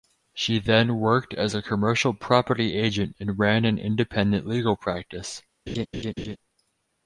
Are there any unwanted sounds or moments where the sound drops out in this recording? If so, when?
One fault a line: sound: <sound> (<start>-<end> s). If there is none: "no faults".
sound: laugh (5.7-6.4 s)